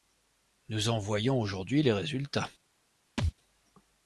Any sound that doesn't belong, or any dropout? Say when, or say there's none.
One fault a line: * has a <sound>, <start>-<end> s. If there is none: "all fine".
* has a thud, 3.2-3.3 s